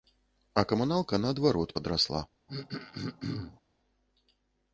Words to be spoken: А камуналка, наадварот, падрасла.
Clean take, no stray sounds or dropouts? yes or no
no